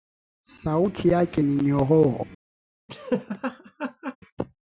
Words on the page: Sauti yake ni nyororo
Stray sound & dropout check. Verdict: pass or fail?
fail